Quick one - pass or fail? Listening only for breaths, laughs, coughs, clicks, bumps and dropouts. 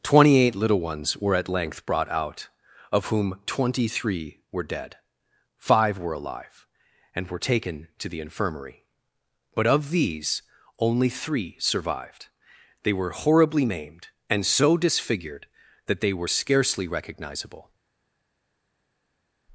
pass